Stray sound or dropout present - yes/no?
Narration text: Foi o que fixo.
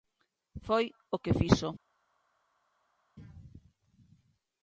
no